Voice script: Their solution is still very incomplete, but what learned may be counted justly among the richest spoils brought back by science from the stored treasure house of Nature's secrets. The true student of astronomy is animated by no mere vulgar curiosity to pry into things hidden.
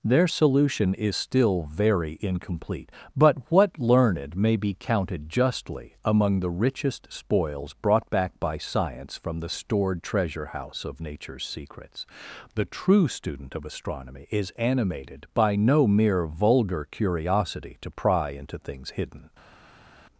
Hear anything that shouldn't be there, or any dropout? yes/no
no